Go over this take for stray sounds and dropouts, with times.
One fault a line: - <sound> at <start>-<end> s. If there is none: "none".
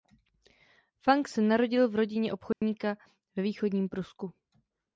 - dropout at 2.5-2.6 s